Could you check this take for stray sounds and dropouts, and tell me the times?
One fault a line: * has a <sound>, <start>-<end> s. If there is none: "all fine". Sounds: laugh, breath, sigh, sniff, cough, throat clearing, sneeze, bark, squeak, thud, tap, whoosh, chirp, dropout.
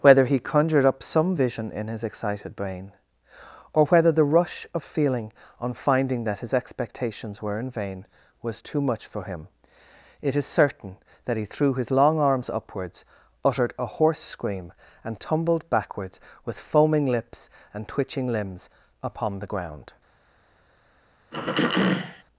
* has a throat clearing, 21.3-22.2 s